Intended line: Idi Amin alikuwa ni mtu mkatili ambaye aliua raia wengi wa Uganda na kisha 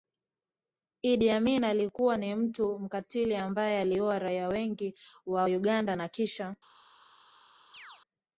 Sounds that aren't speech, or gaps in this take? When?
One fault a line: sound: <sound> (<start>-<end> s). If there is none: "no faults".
sound: chirp (7.7-8.0 s)